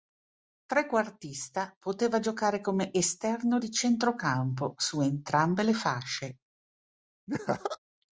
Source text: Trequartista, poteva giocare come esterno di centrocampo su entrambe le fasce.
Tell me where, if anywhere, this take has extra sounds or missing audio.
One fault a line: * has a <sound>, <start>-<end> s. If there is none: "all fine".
* has a laugh, 7.3-7.8 s